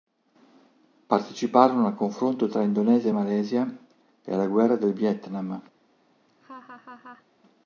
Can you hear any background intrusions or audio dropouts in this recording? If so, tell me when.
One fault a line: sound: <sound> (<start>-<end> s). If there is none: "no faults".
sound: laugh (6.3-7.3 s)